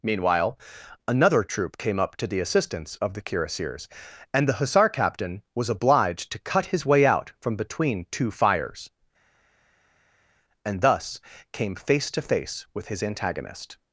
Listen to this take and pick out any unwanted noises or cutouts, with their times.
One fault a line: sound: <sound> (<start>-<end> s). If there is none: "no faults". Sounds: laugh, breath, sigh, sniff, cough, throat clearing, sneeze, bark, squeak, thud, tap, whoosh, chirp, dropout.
no faults